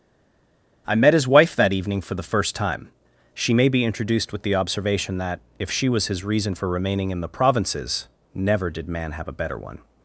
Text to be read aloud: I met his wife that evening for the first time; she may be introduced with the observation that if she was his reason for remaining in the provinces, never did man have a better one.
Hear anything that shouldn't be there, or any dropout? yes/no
no